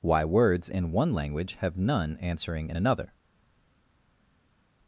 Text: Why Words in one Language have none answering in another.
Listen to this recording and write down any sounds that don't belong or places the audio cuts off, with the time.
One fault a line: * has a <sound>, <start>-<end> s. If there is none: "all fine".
all fine